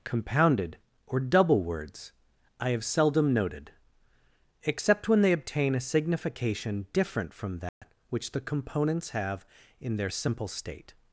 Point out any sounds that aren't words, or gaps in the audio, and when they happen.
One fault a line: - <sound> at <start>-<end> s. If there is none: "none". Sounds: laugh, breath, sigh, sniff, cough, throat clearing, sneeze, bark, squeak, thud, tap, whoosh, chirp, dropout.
- dropout at 7.7-7.8 s